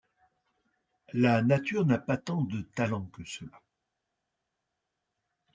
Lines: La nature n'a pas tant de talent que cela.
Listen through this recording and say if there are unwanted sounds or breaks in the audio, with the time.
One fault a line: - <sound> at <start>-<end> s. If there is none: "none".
none